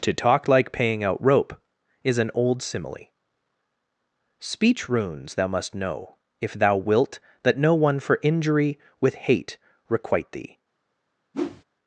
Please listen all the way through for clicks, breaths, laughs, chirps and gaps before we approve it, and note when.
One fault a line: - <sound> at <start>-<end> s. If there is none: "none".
- whoosh at 11.3-11.6 s